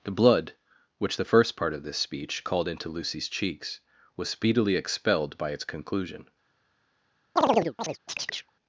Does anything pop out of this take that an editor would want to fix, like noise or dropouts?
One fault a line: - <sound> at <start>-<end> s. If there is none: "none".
- chirp at 7.4-8.5 s